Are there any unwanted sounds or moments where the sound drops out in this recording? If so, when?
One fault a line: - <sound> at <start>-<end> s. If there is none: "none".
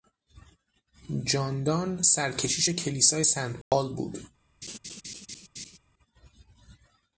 - dropout at 3.6-3.7 s
- laugh at 4.6-5.8 s